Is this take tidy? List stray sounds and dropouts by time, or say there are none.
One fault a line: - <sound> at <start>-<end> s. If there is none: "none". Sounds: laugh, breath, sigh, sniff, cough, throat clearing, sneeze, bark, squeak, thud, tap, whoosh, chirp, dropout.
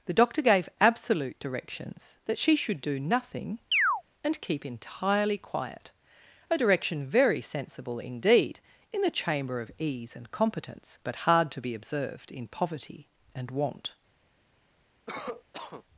- chirp at 3.7-4.0 s
- cough at 15.1-15.8 s